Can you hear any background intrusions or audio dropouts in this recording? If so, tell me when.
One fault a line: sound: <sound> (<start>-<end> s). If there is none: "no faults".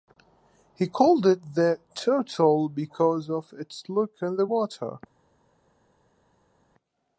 no faults